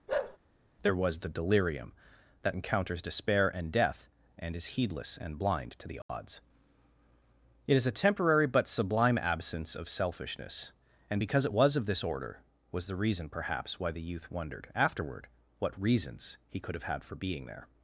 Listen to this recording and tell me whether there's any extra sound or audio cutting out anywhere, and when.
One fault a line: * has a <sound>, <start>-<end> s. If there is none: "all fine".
* has a bark, 0.1-0.4 s
* has a dropout, 6.0-6.1 s